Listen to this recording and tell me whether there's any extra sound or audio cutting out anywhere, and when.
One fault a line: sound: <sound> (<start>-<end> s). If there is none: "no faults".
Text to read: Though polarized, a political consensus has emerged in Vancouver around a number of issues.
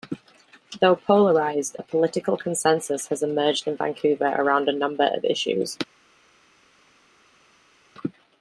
no faults